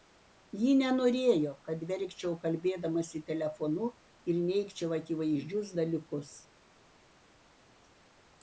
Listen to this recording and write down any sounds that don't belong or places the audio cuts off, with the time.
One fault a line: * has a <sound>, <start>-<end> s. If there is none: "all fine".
all fine